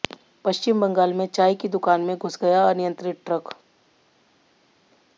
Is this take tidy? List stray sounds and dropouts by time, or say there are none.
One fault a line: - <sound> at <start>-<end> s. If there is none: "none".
none